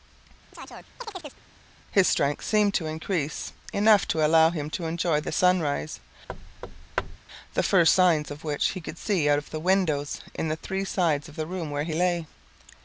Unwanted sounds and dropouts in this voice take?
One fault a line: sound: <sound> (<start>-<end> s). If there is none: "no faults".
sound: chirp (0.5-1.4 s)
sound: thud (6.3-7.2 s)